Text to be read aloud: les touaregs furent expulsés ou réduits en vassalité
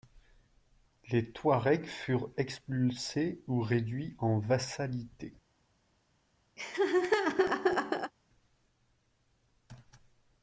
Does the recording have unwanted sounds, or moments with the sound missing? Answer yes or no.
yes